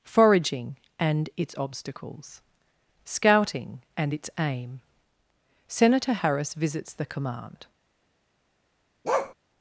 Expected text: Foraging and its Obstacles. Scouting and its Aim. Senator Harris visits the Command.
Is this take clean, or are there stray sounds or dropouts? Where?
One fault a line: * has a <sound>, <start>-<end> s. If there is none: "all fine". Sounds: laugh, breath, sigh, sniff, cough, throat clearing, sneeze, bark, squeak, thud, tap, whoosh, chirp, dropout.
* has a bark, 9.0-9.3 s